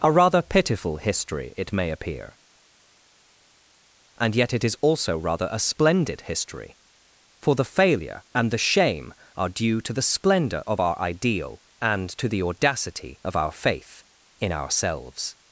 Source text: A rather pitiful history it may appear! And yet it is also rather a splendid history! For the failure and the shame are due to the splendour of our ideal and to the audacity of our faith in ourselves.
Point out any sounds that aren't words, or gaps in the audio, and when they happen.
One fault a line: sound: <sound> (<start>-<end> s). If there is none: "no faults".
no faults